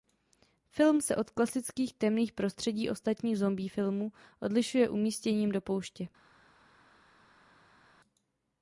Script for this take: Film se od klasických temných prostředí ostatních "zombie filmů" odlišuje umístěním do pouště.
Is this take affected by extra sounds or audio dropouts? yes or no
no